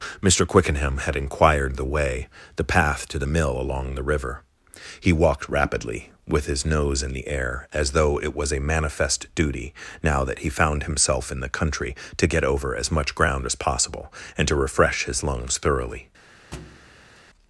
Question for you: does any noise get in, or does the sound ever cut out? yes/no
yes